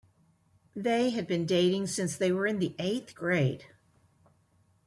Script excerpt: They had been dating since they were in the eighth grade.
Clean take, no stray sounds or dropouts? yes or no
yes